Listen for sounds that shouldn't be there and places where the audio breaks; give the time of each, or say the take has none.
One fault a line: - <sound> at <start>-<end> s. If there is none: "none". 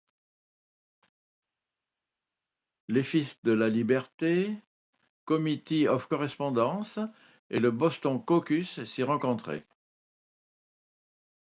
none